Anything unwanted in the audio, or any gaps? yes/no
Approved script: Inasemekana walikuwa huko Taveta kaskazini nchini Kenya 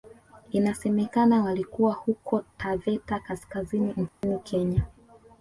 yes